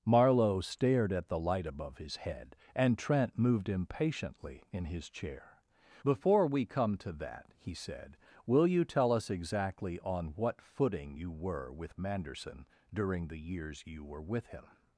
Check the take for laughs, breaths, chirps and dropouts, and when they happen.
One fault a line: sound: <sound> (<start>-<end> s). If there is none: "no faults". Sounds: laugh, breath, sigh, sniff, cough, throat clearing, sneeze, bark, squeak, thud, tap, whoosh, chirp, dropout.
no faults